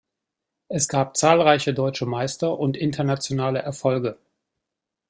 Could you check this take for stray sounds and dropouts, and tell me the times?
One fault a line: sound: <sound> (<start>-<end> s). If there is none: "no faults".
no faults